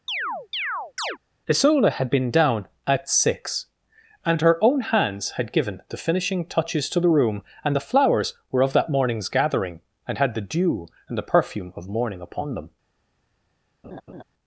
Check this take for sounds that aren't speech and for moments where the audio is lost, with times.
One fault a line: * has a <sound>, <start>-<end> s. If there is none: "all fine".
* has a chirp, 0.1-1.2 s
* has a laugh, 13.8-14.2 s